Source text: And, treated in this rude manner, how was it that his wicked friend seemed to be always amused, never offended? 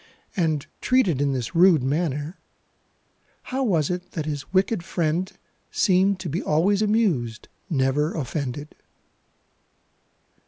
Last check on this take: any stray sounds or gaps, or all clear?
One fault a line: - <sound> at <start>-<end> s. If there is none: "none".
none